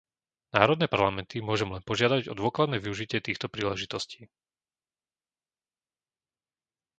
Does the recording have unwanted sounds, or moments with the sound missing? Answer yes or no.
no